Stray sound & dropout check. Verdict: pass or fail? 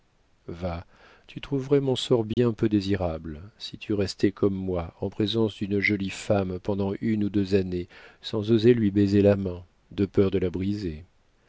fail